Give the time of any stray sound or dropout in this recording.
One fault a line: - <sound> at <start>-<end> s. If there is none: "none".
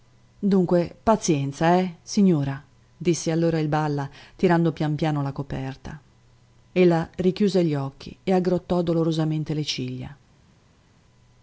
none